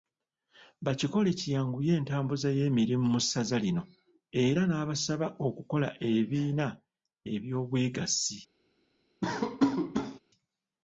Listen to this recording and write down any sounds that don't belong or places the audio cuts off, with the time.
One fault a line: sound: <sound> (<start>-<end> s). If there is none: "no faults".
sound: laugh (9.2-10.2 s)